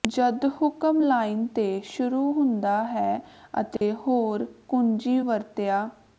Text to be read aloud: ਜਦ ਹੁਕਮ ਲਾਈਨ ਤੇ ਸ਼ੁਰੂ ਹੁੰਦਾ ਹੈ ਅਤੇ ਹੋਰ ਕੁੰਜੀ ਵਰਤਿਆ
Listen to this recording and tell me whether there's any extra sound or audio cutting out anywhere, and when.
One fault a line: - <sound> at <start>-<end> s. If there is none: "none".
- dropout at 3.8-3.8 s